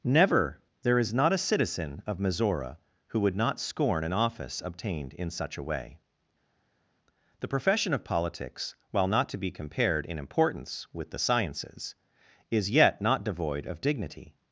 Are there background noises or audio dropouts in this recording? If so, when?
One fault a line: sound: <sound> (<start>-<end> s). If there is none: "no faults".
no faults